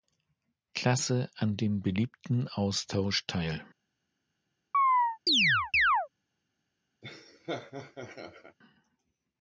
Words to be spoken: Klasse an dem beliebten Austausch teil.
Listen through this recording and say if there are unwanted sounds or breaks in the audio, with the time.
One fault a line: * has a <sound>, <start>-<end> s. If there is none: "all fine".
* has a chirp, 4.7-6.1 s
* has a laugh, 7.0-8.6 s